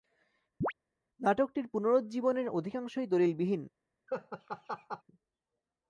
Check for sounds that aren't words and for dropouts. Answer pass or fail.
fail